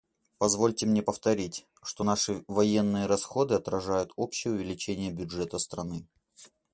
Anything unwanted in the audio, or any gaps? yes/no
no